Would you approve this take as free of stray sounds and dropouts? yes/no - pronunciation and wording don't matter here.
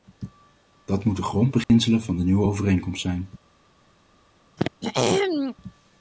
no